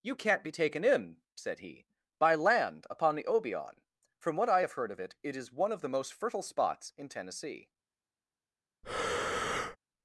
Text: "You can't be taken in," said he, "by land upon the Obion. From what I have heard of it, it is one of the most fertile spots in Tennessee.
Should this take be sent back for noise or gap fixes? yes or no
yes